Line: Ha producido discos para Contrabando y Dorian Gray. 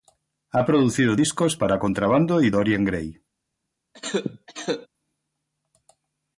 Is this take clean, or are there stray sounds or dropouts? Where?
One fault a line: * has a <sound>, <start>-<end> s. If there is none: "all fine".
* has a cough, 3.9-4.9 s